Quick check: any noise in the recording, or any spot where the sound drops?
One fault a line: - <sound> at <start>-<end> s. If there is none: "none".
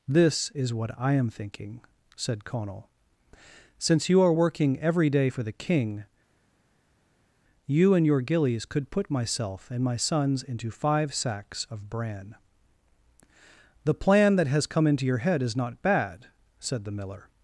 none